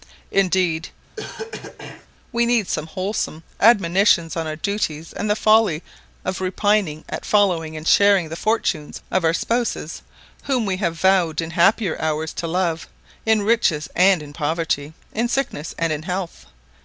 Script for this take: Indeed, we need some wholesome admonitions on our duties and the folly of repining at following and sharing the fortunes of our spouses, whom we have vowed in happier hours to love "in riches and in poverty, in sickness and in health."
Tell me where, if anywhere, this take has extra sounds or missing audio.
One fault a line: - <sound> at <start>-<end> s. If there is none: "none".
- cough at 1.2-2.1 s